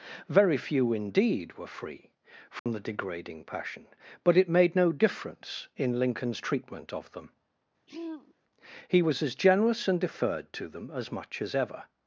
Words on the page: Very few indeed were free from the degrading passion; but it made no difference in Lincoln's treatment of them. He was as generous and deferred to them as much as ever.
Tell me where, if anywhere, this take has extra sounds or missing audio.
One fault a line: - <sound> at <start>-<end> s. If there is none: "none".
- dropout at 2.6-2.7 s
- throat clearing at 7.9-8.3 s